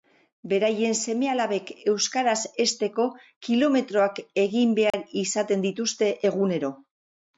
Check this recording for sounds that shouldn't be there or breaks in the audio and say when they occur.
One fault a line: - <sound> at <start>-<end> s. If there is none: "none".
- dropout at 4.9-4.9 s